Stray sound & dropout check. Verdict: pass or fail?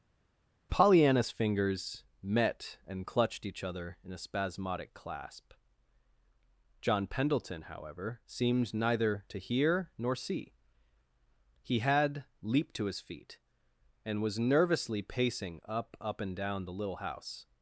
pass